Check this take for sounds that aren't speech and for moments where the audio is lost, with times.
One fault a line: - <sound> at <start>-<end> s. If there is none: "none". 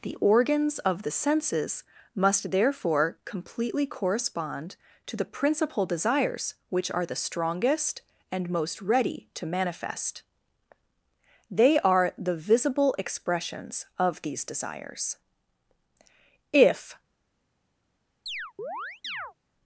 - chirp at 18.3-19.3 s